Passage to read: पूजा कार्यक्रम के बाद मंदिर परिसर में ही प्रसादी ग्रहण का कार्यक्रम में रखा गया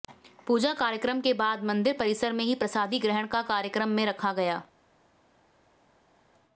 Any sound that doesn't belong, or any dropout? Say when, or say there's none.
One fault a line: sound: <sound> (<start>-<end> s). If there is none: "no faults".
no faults